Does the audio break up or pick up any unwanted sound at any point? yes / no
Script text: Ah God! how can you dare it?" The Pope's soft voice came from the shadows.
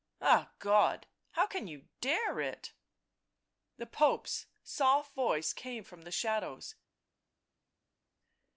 no